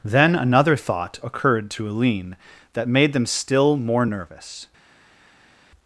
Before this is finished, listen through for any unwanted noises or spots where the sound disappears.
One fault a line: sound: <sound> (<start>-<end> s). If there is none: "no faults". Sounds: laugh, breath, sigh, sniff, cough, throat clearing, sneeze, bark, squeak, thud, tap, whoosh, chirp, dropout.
no faults